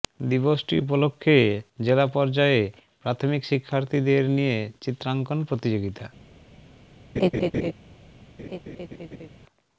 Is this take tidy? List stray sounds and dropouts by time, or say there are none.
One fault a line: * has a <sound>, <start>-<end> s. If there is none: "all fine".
* has a laugh, 7.2-7.7 s
* has a laugh, 8.4-9.3 s